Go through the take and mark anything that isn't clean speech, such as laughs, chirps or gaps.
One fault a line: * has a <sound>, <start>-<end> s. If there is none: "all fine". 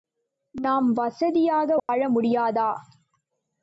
* has a dropout, 1.8-1.9 s